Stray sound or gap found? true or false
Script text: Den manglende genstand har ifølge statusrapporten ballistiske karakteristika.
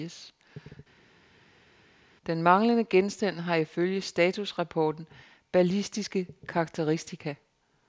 false